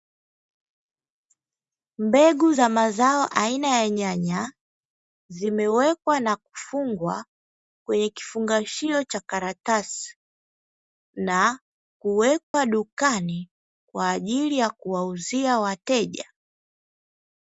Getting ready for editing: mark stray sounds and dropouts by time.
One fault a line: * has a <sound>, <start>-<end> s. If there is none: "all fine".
* has a dropout, 12.4-12.5 s